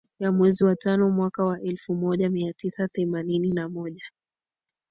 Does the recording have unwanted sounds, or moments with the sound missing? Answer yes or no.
no